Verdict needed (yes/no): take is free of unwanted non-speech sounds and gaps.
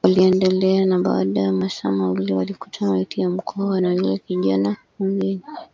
yes